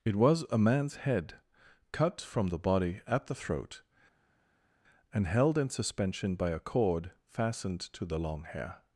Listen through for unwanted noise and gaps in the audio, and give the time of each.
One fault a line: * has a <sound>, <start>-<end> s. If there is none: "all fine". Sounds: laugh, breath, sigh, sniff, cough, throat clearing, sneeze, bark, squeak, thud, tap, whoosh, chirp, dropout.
all fine